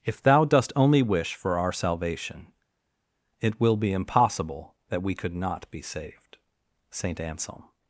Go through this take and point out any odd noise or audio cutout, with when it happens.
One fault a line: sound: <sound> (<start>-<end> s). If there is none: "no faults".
no faults